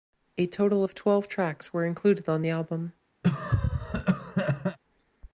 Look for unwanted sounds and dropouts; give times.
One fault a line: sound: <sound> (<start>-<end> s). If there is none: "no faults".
sound: cough (3.2-4.8 s)